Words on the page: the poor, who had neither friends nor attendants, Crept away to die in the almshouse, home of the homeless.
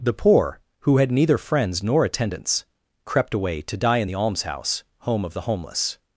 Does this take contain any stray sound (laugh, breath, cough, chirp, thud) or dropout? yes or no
no